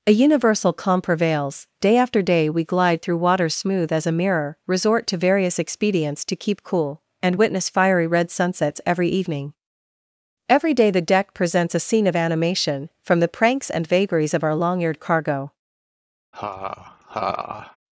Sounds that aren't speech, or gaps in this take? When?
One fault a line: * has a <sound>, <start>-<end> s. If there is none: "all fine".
* has a laugh, 16.3-17.8 s